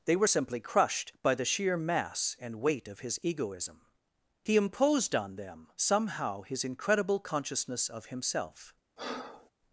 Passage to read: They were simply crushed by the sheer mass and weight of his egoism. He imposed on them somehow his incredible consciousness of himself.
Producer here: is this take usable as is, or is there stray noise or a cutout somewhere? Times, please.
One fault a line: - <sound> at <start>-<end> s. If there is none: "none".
- breath at 9.0-9.5 s